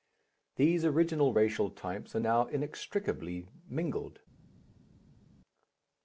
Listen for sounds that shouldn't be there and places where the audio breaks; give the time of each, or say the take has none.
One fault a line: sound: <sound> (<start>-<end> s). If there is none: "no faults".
no faults